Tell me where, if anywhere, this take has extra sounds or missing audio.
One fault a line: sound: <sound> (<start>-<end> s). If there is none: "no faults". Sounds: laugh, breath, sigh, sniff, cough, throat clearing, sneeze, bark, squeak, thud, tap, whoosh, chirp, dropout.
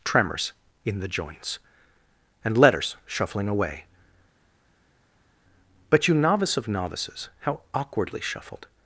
no faults